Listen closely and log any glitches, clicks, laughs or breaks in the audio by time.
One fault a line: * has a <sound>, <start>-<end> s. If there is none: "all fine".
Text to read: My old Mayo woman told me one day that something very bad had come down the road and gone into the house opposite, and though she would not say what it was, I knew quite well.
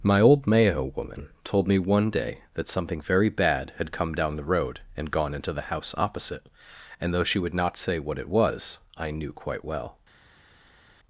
all fine